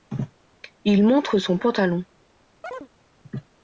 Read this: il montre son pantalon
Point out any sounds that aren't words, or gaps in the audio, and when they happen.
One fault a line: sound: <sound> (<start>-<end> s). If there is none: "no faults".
sound: chirp (2.6-2.9 s)